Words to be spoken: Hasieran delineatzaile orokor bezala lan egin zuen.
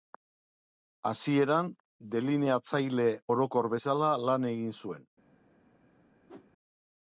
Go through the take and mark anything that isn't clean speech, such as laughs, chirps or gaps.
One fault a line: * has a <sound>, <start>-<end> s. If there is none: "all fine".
* has a whoosh, 6.3-6.5 s